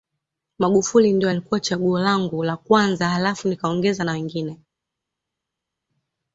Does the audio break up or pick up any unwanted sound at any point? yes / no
no